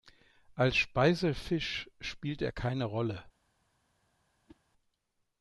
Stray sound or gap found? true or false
true